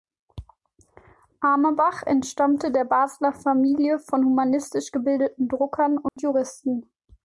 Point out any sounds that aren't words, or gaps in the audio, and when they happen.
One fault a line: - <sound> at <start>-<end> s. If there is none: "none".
- dropout at 6.1-6.2 s